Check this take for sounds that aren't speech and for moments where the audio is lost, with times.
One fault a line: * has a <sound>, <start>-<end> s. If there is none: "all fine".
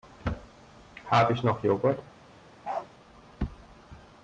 * has a bark, 2.6-2.9 s